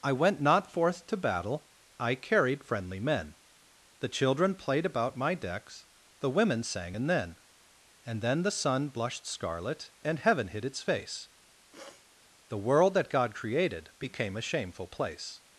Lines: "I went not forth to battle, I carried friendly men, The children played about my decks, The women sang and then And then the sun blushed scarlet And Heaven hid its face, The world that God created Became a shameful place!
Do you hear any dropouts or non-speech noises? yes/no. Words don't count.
yes